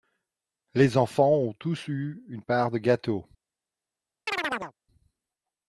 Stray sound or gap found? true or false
true